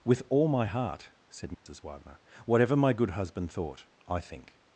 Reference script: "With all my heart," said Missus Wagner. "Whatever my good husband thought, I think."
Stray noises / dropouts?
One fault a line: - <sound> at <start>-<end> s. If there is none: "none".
- dropout at 1.5-1.7 s